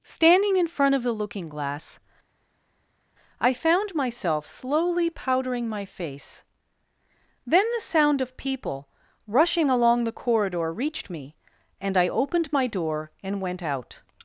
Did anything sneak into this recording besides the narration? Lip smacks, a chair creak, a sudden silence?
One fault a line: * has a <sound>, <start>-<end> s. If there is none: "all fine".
all fine